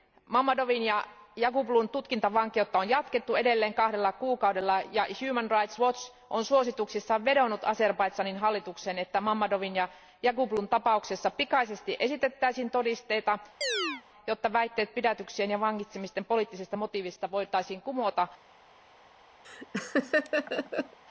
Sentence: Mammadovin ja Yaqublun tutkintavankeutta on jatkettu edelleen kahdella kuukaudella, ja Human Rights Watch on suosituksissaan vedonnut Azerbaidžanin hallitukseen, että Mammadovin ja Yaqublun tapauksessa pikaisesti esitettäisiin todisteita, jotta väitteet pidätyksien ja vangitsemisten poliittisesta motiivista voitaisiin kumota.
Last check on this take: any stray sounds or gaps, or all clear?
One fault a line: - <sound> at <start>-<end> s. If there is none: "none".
- chirp at 13.6-14.0 s
- laugh at 19.4-21.0 s